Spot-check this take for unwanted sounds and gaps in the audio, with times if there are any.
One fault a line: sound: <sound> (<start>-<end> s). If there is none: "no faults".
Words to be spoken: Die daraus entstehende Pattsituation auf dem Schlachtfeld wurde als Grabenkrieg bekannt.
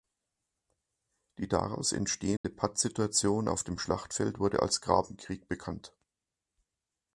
sound: dropout (2.4-2.4 s)